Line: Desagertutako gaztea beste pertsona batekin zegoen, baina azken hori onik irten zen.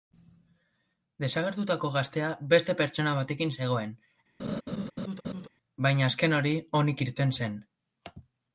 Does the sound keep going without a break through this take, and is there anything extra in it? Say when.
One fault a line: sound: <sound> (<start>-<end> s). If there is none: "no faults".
sound: laugh (4.4-5.5 s)